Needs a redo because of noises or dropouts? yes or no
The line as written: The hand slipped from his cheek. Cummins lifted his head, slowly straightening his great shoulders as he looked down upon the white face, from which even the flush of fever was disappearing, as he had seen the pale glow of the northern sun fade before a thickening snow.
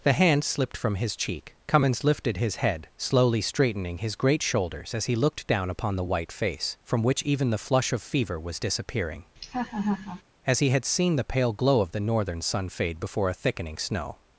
yes